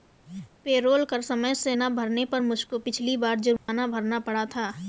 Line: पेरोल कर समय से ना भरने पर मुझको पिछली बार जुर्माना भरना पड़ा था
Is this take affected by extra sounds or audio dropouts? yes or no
yes